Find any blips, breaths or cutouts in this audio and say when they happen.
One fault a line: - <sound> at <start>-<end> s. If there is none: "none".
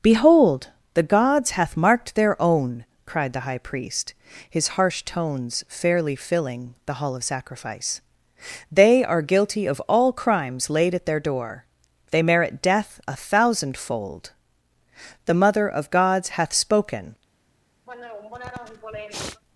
- sniff at 17.9-19.4 s